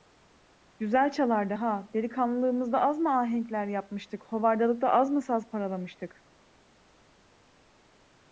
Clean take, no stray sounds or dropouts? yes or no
yes